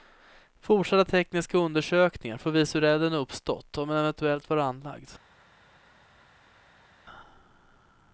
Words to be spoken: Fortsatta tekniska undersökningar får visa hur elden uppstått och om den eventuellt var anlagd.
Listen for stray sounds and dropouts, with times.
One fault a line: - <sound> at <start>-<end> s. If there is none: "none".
none